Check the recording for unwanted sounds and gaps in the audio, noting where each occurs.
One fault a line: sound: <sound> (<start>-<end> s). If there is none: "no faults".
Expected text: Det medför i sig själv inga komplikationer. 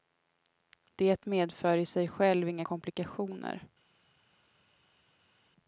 no faults